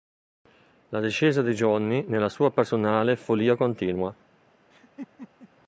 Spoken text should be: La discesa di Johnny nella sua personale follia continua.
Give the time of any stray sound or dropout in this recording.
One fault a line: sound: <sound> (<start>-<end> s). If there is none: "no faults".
sound: laugh (4.7-5.5 s)